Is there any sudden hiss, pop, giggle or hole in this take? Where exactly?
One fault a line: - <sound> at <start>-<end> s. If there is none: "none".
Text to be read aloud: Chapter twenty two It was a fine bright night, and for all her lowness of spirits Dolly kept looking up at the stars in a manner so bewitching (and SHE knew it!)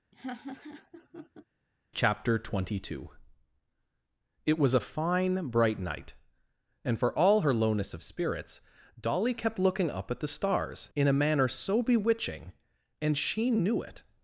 - laugh at 0.1-1.4 s